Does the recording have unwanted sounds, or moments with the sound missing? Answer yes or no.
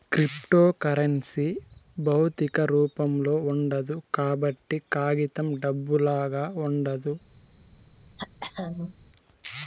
yes